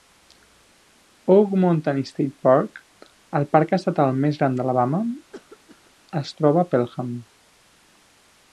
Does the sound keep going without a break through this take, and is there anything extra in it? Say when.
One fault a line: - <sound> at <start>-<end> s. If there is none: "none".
- cough at 5.3-5.9 s